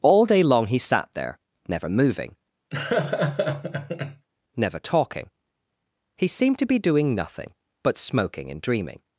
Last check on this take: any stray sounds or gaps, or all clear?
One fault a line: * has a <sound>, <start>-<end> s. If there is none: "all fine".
* has a laugh, 2.7-4.3 s